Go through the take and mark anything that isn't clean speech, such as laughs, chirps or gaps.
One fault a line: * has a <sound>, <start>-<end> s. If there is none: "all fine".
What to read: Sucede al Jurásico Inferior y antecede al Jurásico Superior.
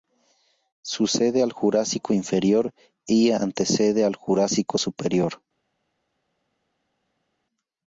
all fine